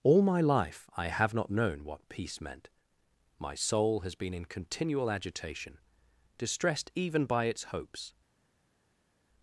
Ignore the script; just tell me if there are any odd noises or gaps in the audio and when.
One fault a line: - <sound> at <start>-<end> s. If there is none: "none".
none